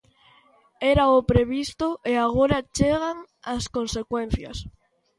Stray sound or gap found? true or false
false